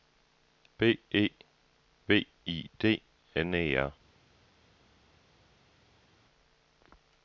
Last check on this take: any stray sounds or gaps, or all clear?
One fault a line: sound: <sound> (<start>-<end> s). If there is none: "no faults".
no faults